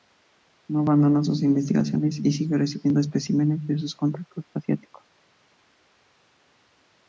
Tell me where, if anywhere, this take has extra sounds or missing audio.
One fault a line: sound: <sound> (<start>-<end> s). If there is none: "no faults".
no faults